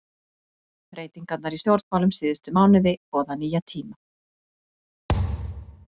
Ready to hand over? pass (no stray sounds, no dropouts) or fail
fail